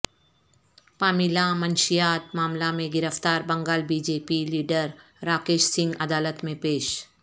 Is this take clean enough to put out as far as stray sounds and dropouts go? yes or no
yes